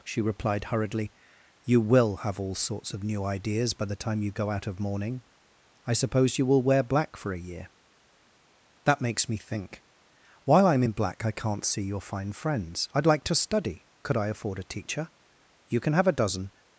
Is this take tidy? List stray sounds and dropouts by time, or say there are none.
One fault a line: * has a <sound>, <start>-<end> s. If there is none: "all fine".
all fine